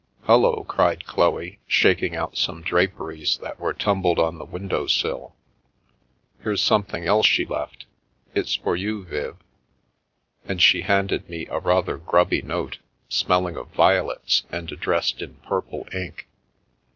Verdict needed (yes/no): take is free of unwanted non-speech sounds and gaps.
yes